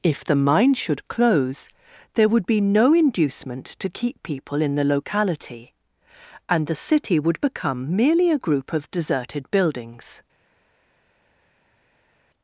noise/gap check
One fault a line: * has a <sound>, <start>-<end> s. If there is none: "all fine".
all fine